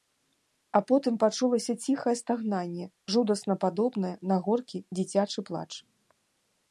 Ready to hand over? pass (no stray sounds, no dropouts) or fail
pass